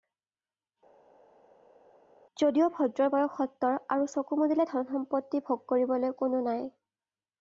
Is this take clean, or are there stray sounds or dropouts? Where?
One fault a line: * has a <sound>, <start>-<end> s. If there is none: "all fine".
all fine